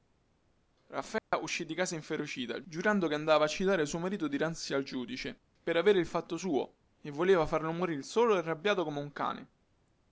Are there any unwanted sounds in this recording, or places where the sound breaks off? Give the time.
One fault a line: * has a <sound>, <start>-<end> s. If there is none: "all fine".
* has a dropout, 1.2-1.3 s